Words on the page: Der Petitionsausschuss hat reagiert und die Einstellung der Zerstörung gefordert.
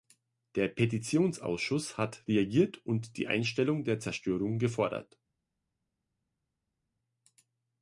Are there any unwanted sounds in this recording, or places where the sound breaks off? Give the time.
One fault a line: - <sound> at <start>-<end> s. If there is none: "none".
none